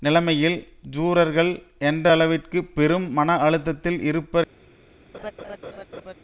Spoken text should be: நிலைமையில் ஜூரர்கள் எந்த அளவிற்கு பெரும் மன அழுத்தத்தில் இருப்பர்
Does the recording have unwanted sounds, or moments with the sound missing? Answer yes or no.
yes